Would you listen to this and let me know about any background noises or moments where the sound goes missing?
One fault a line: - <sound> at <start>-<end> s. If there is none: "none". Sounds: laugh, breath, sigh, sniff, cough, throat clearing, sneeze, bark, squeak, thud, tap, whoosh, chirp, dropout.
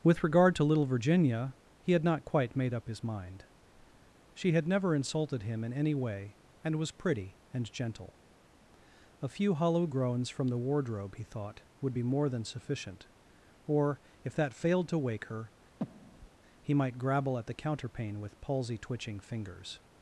- breath at 15.8-16.3 s